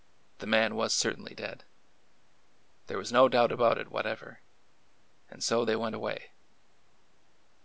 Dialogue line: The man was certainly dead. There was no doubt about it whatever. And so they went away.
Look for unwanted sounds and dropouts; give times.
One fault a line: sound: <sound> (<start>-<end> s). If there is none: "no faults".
no faults